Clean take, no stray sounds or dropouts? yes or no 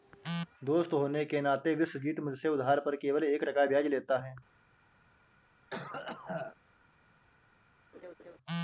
no